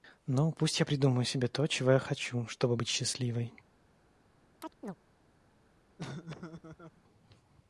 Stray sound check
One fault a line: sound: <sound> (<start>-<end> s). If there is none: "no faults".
sound: chirp (4.6-5.0 s)
sound: laugh (6.0-7.0 s)